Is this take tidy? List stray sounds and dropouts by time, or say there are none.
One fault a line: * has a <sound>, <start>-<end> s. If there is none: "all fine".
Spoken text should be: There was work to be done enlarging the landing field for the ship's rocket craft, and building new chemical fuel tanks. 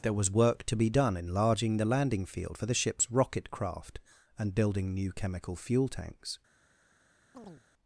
* has a chirp, 7.3-7.6 s